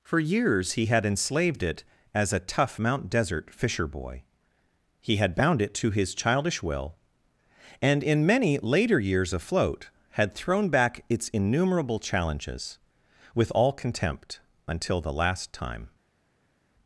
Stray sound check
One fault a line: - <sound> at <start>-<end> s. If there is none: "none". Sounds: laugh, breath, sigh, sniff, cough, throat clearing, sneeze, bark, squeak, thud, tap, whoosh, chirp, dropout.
none